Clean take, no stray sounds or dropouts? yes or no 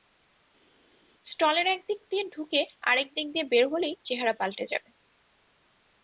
yes